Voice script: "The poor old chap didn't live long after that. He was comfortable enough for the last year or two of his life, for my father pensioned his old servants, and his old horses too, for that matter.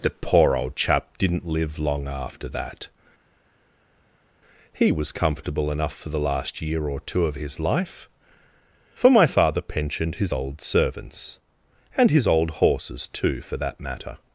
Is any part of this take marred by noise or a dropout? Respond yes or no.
no